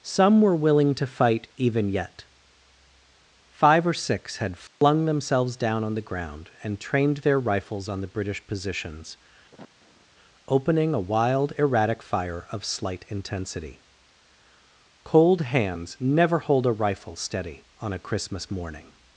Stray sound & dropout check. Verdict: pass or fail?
fail